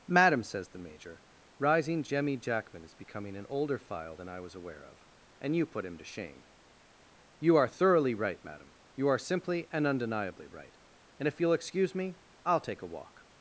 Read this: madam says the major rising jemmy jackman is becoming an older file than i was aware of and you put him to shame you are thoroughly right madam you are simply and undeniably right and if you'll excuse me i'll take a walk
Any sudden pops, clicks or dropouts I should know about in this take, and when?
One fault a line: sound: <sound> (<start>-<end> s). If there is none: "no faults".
no faults